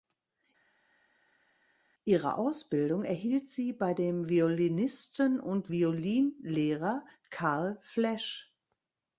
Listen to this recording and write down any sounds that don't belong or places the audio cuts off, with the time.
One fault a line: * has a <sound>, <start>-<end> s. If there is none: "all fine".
all fine